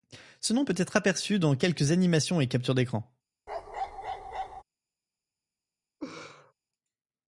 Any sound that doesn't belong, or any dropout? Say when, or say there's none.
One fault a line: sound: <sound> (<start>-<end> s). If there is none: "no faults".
sound: bark (3.5-4.6 s)
sound: laugh (6.0-6.5 s)